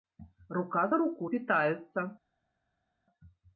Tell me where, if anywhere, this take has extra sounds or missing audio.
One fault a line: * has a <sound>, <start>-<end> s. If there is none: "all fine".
all fine